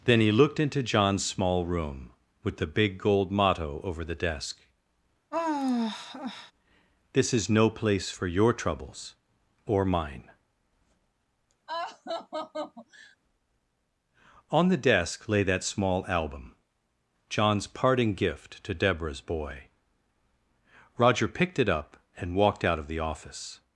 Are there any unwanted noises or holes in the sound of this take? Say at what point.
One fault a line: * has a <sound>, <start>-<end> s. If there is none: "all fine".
* has a sigh, 5.3-6.5 s
* has a laugh, 11.7-13.2 s